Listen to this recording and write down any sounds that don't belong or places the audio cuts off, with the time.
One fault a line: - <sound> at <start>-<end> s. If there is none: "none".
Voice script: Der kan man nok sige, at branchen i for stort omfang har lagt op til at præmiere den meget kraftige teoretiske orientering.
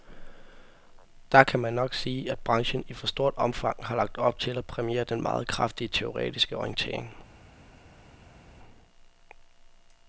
none